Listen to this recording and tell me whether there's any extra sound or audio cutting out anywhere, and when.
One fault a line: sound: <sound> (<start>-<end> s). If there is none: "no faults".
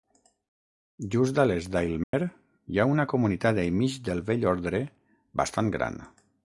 sound: dropout (2.0-2.1 s)